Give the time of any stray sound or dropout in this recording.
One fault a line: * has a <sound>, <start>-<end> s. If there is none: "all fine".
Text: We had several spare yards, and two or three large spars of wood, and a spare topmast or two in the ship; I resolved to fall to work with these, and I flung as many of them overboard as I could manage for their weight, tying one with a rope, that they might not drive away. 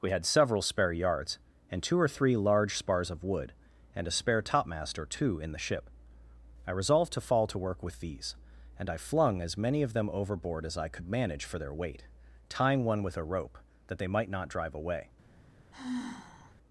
* has a sigh, 15.7-16.6 s